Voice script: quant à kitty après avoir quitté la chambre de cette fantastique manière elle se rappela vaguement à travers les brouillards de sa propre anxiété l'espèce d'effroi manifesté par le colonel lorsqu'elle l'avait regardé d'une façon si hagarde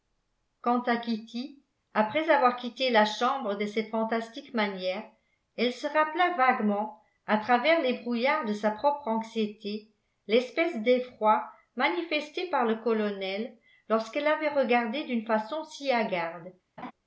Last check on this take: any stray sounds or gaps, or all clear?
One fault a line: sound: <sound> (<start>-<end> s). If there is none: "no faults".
sound: laugh (16.8-16.9 s)